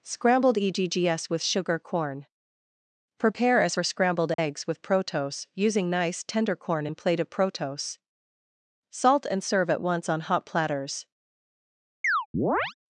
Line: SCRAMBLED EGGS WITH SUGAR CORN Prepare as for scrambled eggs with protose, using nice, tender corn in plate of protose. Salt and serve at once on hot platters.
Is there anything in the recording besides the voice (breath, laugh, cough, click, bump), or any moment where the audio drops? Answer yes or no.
yes